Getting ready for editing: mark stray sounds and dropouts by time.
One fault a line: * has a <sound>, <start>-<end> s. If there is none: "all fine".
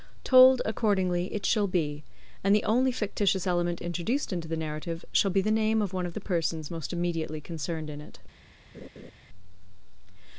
* has a laugh, 8.7-9.1 s